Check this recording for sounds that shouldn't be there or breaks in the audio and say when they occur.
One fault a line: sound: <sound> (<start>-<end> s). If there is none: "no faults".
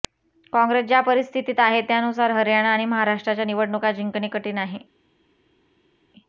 no faults